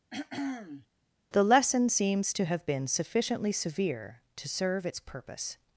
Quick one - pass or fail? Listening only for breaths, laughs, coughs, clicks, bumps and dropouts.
fail